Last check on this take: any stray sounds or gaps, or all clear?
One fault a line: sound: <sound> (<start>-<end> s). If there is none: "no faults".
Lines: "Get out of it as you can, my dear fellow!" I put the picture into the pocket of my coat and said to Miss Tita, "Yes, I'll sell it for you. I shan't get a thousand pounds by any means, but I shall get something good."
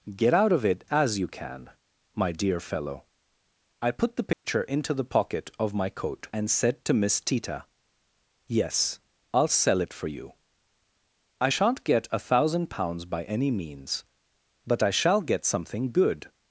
sound: dropout (4.3-4.4 s)